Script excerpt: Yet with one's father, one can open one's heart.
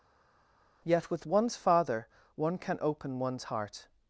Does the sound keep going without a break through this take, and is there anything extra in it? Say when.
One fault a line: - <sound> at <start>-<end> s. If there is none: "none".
none